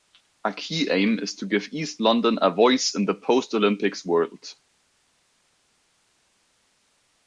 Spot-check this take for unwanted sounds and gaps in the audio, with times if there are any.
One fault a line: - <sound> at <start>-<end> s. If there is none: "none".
none